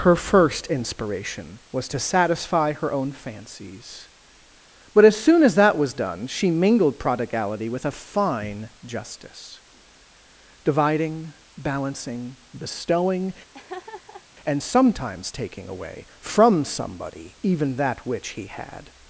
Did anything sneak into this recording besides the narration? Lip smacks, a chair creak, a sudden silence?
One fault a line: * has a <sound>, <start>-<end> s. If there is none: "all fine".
* has a laugh, 13.5-14.3 s